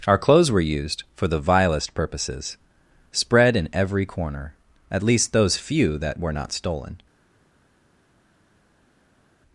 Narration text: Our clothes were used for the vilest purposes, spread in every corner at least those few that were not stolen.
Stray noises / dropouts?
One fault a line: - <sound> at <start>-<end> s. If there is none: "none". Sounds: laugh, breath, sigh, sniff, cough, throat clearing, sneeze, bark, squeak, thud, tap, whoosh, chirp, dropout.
none